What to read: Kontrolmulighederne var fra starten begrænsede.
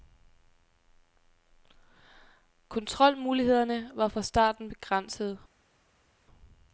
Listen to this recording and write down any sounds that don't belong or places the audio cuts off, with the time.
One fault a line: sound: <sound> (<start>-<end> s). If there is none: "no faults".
no faults